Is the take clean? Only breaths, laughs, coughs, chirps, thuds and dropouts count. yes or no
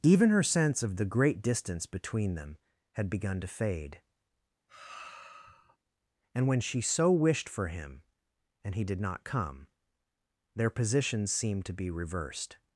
no